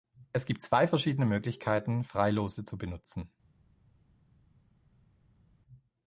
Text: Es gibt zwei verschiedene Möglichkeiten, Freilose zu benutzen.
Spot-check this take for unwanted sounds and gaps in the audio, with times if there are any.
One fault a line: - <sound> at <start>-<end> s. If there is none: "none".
none